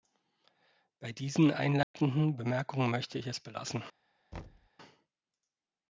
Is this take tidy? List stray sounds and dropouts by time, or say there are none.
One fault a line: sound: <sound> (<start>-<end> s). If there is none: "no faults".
sound: dropout (1.8-1.9 s)
sound: thud (4.3-4.7 s)